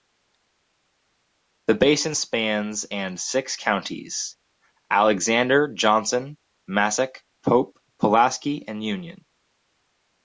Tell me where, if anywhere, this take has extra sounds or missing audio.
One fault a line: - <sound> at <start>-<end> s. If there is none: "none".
none